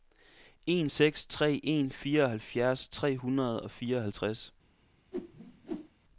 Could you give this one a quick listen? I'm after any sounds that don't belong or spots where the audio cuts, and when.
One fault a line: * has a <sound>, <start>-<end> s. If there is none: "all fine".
* has a whoosh, 5.1-5.9 s